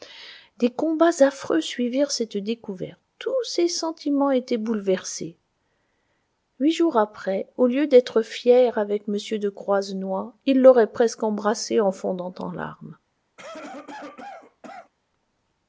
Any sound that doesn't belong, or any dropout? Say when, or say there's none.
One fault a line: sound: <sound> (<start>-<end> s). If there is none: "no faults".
sound: cough (13.4-14.9 s)